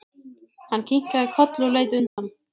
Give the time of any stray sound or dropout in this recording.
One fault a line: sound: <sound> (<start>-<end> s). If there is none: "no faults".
sound: dropout (2.1-2.2 s)